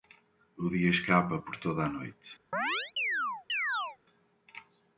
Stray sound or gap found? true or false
true